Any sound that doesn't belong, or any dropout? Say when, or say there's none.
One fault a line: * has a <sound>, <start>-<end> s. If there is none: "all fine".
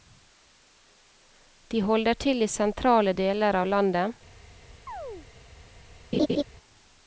* has a chirp, 4.9-5.3 s
* has a laugh, 6.1-6.4 s